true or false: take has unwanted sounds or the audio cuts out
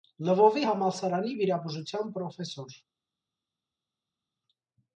false